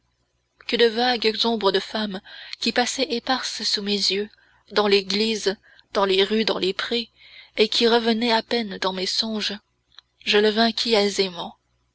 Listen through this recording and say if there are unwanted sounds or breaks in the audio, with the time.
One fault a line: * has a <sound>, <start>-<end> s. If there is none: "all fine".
all fine